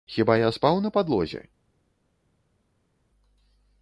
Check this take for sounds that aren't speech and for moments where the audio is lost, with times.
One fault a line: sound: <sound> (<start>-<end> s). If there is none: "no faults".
no faults